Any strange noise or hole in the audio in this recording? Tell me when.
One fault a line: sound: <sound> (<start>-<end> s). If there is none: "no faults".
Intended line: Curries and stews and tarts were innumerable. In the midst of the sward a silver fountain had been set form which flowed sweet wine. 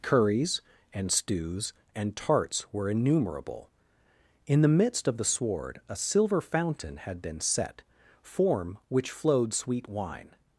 no faults